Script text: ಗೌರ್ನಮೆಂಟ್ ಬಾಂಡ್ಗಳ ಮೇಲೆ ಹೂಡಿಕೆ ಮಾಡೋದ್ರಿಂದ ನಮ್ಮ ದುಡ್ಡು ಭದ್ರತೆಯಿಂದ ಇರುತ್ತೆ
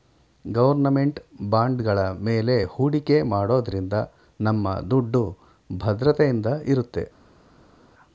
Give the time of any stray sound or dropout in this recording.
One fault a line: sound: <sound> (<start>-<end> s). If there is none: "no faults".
no faults